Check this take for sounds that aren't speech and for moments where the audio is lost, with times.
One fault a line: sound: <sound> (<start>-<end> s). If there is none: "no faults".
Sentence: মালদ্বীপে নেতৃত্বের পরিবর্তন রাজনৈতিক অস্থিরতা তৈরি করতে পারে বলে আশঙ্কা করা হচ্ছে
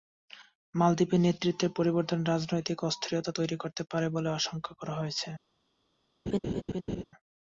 sound: laugh (6.3-7.0 s)